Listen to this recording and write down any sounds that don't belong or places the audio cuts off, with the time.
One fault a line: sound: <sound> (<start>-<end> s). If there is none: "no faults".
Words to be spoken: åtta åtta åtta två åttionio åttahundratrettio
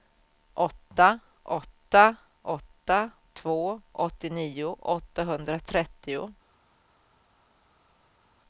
no faults